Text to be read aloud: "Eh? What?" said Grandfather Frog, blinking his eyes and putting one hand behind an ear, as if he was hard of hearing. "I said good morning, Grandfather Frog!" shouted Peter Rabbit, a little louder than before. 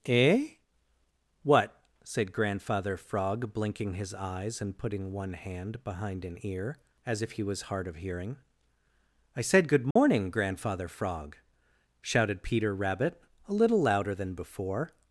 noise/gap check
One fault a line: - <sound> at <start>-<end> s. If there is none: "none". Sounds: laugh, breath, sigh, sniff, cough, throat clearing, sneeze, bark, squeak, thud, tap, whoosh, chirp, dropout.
- dropout at 9.9-10.0 s